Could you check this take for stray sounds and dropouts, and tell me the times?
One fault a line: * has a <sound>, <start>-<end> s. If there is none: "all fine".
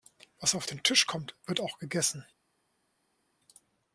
all fine